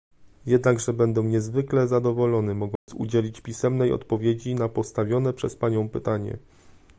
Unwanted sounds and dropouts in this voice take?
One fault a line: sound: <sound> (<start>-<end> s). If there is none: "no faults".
sound: dropout (2.8-2.9 s)